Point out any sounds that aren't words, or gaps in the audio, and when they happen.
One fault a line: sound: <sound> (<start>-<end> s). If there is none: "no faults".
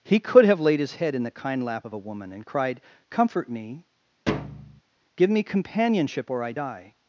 sound: thud (4.3-4.8 s)